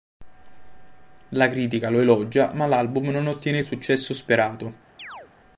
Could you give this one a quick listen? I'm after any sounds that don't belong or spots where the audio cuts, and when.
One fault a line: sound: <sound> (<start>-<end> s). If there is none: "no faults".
sound: chirp (5.0-5.3 s)